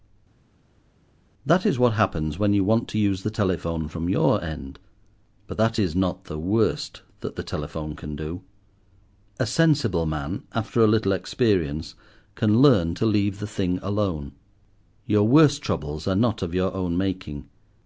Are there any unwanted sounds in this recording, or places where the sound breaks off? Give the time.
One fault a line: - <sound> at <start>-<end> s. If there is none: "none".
none